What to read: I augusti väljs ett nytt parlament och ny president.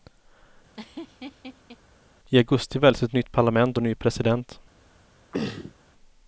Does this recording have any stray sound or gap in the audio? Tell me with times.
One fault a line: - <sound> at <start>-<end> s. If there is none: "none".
- laugh at 0.7-1.8 s
- throat clearing at 5.3-5.7 s